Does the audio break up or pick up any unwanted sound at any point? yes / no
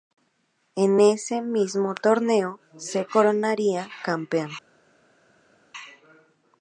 no